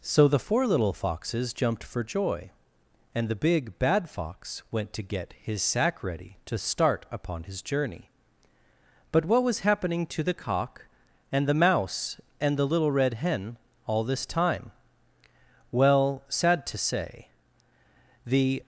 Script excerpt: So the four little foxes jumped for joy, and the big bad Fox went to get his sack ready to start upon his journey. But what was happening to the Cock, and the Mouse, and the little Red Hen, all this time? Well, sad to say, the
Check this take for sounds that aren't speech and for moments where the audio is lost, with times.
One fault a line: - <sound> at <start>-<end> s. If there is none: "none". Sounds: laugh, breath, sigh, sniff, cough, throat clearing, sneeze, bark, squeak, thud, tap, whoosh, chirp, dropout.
none